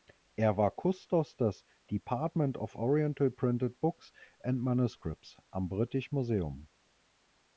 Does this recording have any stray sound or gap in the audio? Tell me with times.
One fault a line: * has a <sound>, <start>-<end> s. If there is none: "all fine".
all fine